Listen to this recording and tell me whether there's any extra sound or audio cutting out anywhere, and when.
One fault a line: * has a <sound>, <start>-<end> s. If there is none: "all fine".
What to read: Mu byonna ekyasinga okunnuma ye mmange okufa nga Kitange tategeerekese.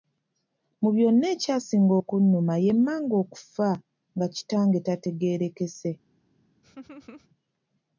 * has a laugh, 6.6-7.3 s